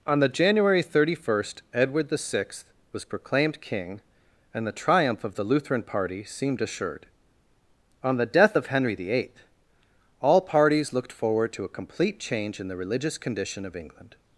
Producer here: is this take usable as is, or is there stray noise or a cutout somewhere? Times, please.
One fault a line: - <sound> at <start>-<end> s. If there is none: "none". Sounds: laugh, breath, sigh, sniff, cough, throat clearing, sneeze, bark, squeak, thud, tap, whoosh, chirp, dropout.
none